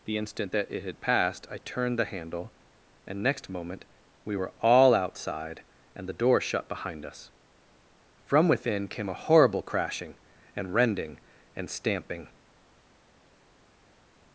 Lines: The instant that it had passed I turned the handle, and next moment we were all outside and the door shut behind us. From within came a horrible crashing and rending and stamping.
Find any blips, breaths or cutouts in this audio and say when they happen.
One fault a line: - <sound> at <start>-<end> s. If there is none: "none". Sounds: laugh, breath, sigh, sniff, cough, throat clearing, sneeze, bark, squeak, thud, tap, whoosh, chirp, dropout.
none